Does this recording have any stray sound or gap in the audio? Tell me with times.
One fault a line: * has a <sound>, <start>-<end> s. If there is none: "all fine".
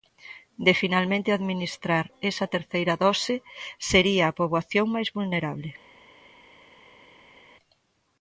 all fine